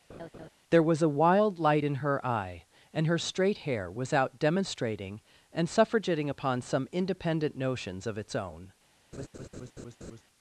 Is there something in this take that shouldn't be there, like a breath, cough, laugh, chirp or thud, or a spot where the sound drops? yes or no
yes